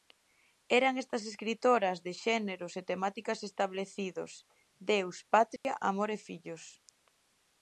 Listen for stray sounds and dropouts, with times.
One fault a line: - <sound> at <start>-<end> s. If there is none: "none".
- dropout at 5.6-5.6 s